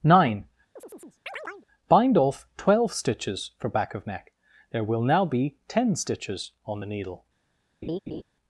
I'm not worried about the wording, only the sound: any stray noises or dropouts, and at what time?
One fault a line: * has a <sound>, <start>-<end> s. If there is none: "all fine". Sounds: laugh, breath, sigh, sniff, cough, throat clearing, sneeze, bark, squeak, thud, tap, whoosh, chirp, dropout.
* has a chirp, 0.8-1.7 s
* has a laugh, 7.8-8.2 s